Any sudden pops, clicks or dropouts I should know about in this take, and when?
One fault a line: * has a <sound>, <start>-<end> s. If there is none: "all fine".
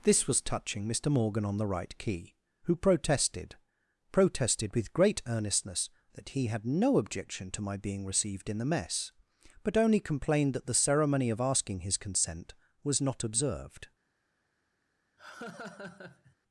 * has a laugh, 15.2-16.4 s